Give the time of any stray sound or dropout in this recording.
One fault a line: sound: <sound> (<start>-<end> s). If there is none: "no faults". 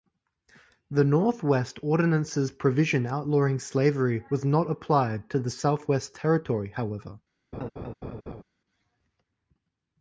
sound: laugh (7.5-8.4 s)